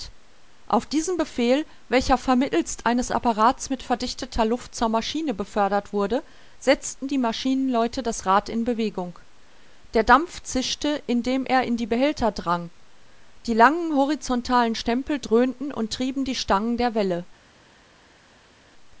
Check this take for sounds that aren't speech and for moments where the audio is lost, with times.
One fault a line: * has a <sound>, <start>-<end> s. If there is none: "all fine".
all fine